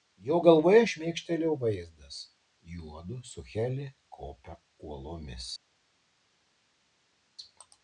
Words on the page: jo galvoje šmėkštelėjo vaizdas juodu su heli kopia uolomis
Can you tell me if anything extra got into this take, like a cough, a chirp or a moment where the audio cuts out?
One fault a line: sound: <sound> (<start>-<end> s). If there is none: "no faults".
no faults